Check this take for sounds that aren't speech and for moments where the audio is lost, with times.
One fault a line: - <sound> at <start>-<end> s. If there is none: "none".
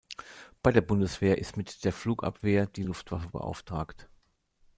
none